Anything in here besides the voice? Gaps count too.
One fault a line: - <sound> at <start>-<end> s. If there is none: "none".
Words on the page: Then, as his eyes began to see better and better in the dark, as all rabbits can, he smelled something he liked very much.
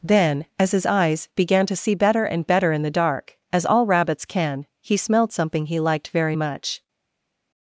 none